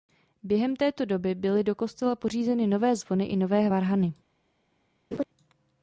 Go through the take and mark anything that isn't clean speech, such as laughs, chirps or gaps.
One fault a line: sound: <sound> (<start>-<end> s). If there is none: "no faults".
sound: laugh (5.1-5.2 s)